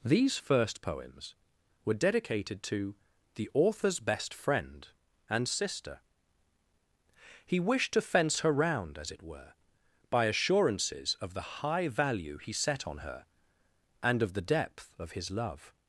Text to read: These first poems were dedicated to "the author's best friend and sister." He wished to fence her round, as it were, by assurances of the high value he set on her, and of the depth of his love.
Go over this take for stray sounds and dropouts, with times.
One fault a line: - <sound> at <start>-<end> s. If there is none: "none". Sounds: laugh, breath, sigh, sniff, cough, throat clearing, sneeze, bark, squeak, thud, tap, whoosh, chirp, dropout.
none